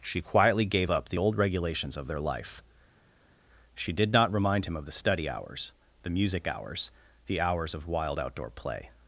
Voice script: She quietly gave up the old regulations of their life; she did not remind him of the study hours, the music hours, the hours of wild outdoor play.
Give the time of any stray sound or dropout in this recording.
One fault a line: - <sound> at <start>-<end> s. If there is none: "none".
none